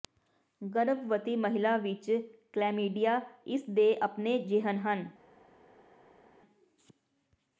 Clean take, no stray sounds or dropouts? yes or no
yes